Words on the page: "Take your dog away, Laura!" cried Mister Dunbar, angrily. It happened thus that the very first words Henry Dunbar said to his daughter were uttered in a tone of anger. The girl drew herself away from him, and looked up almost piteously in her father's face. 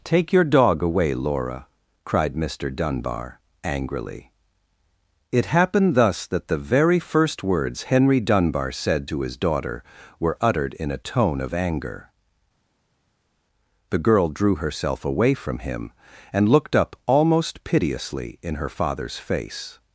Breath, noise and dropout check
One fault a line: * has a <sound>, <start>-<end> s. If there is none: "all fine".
all fine